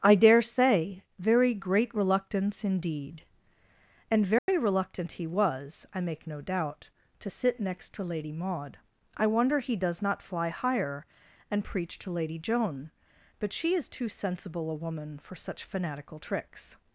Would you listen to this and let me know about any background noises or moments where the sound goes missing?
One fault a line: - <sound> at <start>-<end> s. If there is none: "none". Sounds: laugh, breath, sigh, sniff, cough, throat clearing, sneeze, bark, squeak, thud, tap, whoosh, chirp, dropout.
- dropout at 4.4-4.5 s